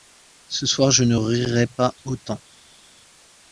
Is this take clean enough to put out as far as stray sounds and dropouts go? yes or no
yes